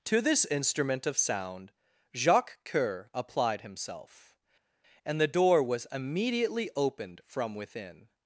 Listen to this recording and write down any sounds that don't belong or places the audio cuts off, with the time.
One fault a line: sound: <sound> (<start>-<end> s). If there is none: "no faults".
no faults